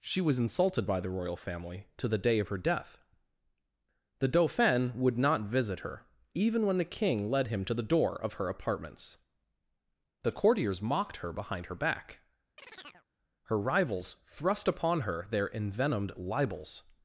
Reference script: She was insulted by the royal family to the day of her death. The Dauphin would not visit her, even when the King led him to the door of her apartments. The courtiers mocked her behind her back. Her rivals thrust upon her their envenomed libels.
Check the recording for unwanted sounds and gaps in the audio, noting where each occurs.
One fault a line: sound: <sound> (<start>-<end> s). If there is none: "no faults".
sound: chirp (12.6-13.1 s)